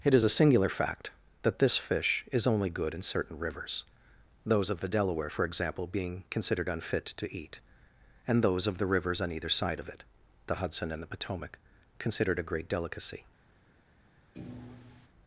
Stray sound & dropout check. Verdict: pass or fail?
fail